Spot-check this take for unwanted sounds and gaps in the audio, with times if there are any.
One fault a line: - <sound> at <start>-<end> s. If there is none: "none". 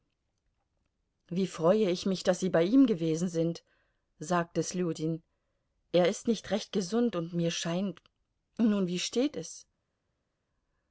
none